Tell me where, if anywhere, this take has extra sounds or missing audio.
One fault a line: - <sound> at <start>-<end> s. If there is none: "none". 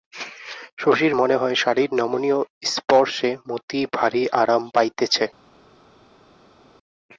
none